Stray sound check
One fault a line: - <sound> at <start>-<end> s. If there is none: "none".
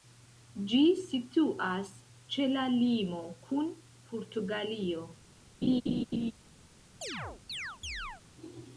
- laugh at 5.6-6.3 s
- chirp at 7.0-8.2 s